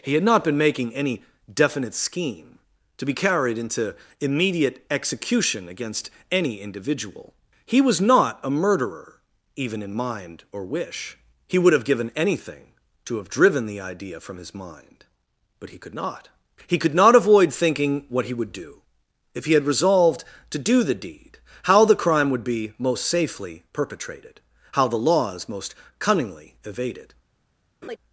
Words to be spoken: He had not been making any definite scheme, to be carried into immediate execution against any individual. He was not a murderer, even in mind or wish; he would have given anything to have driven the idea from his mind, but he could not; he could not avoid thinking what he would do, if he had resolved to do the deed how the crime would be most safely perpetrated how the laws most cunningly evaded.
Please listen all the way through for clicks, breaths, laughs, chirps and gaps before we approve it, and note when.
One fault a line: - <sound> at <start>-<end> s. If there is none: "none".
- laugh at 27.8-28.0 s